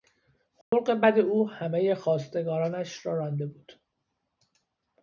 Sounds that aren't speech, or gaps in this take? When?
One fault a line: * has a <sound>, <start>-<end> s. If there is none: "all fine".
* has a dropout, 0.6-0.7 s